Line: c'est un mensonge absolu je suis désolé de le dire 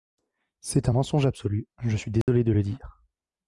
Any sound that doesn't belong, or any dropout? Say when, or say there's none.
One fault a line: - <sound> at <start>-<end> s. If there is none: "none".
- dropout at 2.2-2.3 s